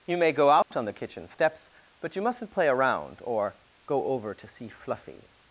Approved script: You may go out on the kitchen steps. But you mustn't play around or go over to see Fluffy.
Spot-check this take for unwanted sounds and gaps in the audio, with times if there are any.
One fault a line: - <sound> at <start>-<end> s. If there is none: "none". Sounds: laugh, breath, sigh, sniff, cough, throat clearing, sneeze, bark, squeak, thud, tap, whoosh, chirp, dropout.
- dropout at 0.6-0.7 s